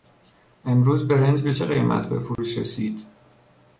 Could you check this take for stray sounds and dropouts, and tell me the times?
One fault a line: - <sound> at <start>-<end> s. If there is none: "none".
- dropout at 2.4-2.4 s